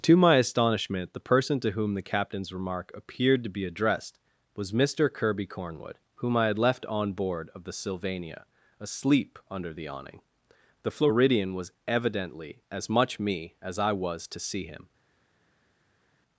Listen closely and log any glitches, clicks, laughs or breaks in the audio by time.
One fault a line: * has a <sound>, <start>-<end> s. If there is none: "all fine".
all fine